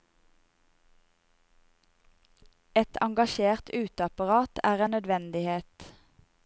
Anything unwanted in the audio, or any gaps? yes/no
no